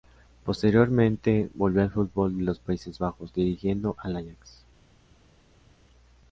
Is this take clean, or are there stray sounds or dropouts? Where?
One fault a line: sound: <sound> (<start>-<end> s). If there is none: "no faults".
no faults